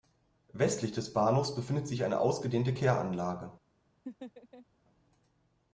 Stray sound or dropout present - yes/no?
yes